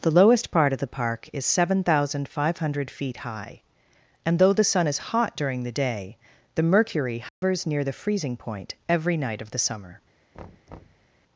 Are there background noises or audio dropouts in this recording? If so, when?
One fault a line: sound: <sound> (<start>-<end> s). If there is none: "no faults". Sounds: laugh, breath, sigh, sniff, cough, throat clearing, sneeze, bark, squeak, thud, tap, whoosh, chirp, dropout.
sound: dropout (7.3-7.4 s)
sound: thud (10.3-11.1 s)